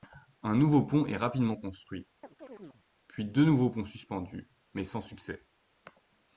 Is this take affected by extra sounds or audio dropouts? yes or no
yes